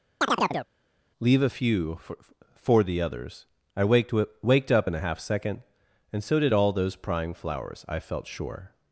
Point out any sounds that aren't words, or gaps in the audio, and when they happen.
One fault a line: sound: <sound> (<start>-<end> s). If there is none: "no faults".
sound: chirp (0.2-0.7 s)